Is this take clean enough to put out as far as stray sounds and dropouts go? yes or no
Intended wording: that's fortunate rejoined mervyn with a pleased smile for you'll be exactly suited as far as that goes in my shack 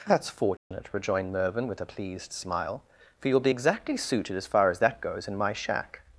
no